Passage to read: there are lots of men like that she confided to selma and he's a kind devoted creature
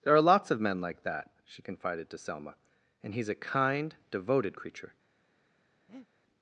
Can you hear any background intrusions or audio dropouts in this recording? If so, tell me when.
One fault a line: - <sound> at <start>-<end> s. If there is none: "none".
- breath at 5.9-6.1 s